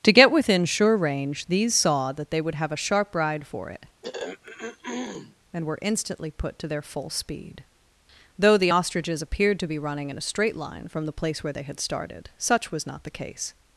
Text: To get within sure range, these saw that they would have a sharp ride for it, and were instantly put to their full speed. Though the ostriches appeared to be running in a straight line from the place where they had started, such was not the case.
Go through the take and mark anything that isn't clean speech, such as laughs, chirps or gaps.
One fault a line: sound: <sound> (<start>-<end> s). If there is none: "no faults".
sound: throat clearing (4.0-5.4 s)